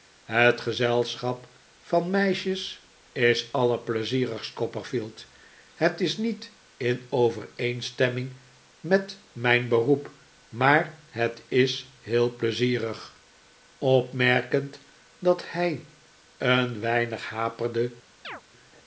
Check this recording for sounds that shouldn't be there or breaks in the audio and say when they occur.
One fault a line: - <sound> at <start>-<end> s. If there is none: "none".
- chirp at 18.2-18.4 s